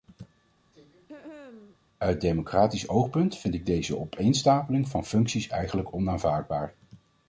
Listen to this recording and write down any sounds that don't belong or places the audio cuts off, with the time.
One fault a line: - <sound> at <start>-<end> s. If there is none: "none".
- throat clearing at 0.7-1.8 s